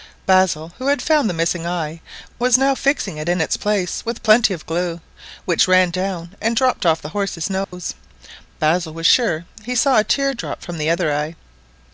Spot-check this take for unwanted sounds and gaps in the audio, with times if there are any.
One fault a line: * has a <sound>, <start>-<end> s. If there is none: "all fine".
* has a dropout, 7.6-7.7 s